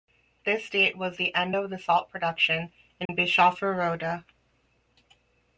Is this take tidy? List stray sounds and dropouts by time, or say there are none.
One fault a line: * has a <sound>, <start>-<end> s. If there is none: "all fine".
* has a dropout, 3.1-3.1 s